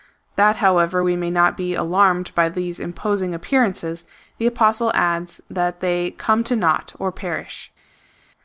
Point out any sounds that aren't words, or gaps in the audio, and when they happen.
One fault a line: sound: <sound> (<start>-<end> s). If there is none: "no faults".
no faults